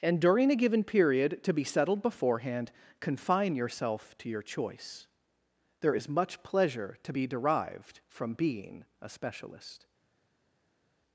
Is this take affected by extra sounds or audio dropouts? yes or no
no